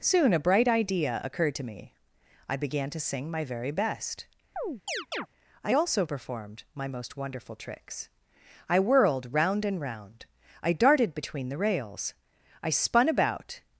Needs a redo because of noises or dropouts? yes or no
yes